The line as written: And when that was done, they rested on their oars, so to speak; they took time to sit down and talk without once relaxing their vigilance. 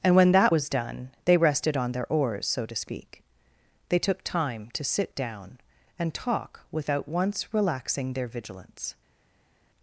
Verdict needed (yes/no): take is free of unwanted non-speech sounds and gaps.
yes